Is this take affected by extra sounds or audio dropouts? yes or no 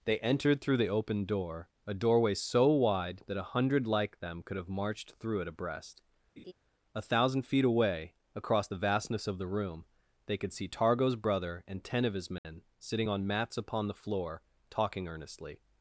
yes